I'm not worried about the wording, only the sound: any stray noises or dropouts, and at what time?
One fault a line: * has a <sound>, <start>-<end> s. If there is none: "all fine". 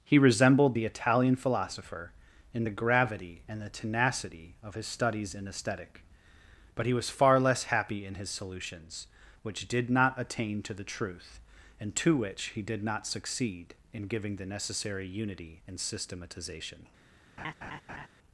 * has a laugh, 17.4-18.1 s